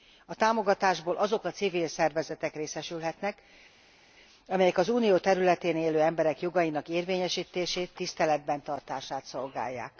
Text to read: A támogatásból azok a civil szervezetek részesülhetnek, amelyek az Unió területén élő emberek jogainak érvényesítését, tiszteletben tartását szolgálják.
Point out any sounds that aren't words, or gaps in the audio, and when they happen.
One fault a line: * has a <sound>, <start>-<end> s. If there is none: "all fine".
all fine